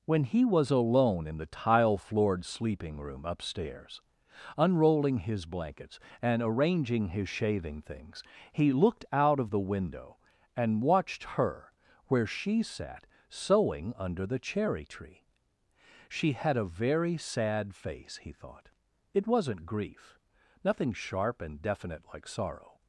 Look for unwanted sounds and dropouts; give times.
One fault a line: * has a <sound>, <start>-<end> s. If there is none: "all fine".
all fine